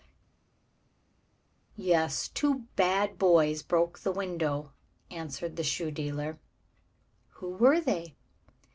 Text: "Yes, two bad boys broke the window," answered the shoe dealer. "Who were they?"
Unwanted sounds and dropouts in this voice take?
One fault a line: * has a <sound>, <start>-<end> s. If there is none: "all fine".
all fine